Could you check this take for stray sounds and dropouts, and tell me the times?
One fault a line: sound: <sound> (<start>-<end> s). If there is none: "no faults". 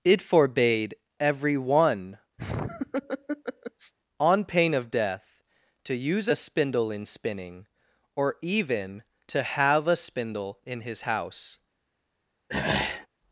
sound: laugh (2.4-3.9 s)
sound: throat clearing (12.5-13.1 s)